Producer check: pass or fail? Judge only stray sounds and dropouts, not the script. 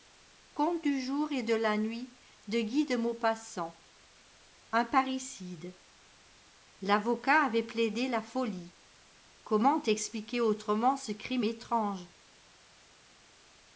pass